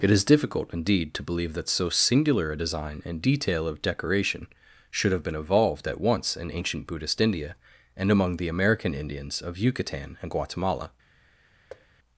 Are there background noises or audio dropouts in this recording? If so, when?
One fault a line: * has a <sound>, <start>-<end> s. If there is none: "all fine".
* has a thud, 11.7-11.9 s